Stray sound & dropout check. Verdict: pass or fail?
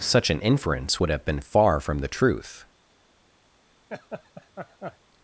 fail